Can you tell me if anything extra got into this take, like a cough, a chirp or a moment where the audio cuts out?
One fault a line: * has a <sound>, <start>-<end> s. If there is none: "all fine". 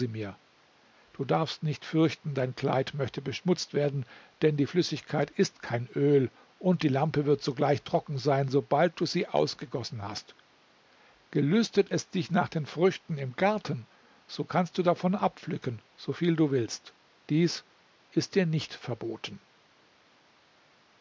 all fine